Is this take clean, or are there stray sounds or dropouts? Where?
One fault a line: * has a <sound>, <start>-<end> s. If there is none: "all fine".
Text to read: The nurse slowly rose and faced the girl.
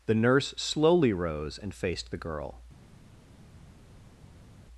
all fine